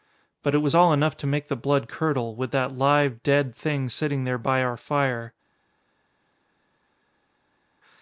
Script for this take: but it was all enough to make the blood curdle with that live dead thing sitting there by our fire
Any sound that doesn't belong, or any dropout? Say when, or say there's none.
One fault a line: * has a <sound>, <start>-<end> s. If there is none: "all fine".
all fine